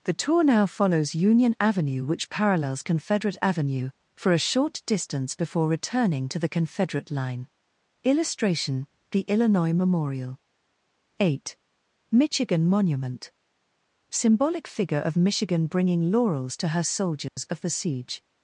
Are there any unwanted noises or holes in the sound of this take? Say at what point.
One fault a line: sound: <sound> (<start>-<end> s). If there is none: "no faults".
sound: dropout (17.3-17.4 s)